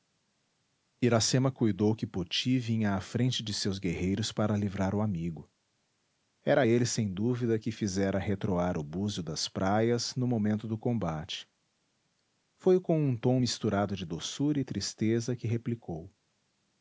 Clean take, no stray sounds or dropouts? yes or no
yes